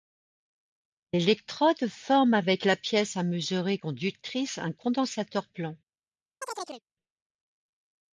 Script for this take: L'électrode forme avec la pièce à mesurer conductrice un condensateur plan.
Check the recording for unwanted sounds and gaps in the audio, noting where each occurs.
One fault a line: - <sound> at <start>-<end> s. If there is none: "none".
- chirp at 6.4-6.8 s